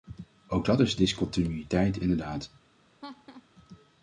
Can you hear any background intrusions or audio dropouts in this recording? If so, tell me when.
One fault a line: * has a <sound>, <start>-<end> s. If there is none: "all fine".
* has a laugh, 3.0-3.5 s